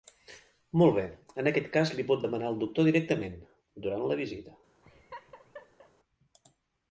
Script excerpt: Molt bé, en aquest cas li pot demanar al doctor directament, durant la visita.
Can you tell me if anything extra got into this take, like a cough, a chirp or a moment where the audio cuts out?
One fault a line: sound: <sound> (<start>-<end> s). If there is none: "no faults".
sound: laugh (4.8-5.9 s)